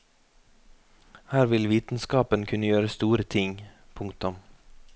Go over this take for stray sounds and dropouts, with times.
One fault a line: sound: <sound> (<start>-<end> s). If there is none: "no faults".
no faults